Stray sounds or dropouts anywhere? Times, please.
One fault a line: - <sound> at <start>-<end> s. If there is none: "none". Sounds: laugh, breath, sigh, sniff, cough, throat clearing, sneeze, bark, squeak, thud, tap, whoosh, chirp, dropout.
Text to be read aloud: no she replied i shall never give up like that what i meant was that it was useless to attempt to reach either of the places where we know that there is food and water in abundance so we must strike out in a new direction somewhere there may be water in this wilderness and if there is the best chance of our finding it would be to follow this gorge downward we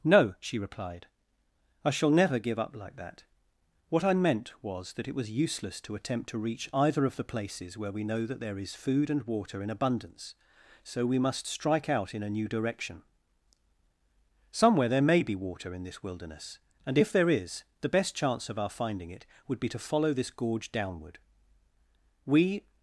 none